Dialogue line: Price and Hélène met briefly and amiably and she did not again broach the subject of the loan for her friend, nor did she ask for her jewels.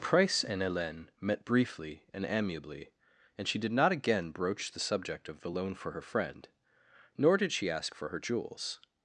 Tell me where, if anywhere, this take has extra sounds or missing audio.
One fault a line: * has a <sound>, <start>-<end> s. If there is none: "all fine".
all fine